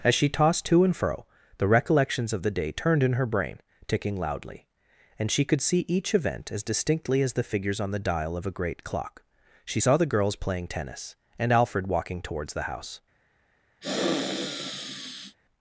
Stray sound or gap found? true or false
true